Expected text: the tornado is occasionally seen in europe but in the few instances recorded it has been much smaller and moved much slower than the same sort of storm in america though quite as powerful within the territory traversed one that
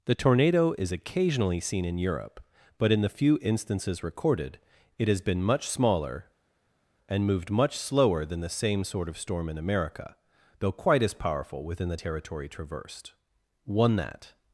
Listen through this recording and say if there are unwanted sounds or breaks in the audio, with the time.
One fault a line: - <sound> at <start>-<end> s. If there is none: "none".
none